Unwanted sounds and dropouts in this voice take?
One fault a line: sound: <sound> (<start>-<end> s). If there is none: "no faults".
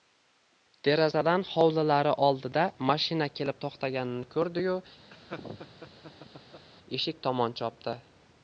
sound: laugh (5.1-6.7 s)